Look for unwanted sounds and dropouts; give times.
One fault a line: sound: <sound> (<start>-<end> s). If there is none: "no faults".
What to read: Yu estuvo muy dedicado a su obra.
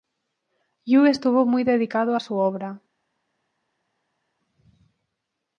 no faults